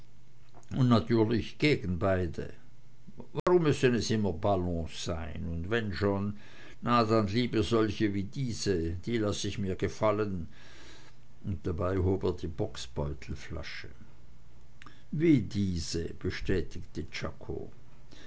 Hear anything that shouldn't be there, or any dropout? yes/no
yes